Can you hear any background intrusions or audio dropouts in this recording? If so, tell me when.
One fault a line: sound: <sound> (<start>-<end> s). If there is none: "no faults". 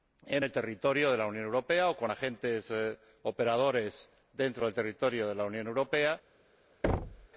sound: thud (6.8-7.3 s)